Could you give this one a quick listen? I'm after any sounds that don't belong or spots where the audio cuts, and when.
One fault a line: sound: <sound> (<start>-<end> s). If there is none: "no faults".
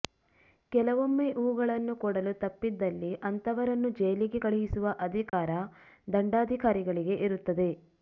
sound: dropout (5.3-5.3 s)